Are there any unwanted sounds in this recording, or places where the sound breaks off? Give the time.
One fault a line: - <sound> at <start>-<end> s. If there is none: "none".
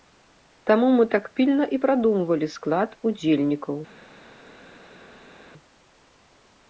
none